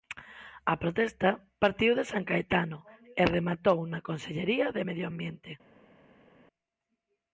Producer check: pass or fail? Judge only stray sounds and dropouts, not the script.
pass